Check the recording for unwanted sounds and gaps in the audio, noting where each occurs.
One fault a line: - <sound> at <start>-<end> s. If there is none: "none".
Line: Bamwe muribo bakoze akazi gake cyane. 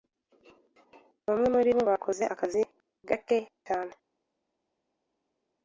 none